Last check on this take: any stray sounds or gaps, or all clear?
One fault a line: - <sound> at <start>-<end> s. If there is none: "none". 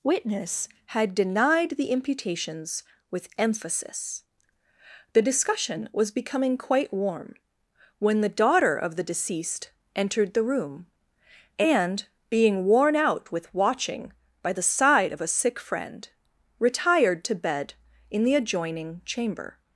none